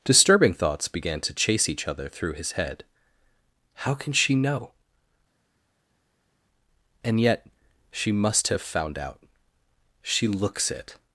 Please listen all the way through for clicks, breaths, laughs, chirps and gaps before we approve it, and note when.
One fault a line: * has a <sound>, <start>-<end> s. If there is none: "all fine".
all fine